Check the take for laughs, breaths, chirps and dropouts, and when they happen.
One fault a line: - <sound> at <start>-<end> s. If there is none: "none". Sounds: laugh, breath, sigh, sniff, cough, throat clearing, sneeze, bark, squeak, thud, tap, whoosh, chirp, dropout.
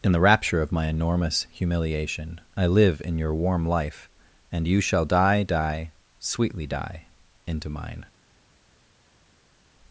none